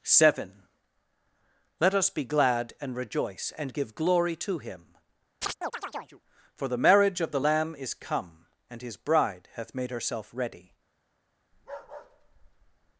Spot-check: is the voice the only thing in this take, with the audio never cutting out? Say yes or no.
no